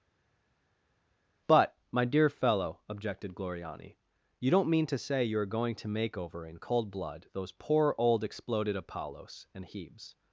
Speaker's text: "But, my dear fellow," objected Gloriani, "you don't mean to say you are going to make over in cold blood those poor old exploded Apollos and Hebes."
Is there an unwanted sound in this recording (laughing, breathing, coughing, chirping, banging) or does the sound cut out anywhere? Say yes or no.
no